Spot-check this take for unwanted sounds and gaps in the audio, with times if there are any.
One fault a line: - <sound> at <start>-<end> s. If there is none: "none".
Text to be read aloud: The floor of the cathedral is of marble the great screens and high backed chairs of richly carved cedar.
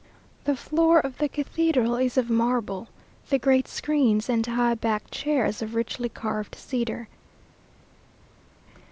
none